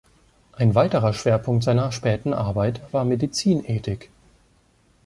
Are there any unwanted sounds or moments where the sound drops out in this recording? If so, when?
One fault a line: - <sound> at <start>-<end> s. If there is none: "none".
none